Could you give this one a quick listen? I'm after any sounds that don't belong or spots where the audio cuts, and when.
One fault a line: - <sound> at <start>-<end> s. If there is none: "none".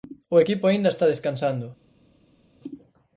none